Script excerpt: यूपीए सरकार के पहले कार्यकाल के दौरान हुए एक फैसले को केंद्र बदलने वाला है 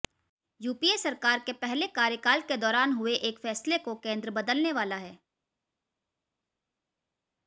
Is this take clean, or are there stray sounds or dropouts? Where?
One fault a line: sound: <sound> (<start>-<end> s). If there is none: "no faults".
no faults